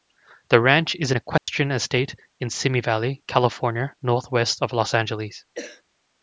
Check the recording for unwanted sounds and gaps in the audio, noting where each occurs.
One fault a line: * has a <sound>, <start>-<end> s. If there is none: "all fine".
* has a dropout, 1.4-1.5 s
* has a cough, 5.5-5.8 s